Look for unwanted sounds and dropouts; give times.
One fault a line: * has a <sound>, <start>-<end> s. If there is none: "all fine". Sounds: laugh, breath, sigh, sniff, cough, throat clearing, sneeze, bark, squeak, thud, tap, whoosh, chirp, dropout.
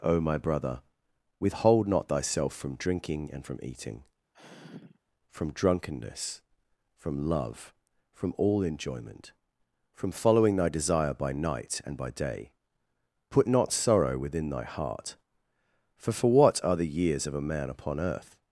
* has a sigh, 4.3-5.0 s